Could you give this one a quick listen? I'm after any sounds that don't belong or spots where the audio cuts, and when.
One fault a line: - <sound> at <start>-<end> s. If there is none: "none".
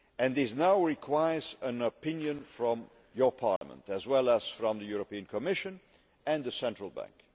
- dropout at 3.6-3.6 s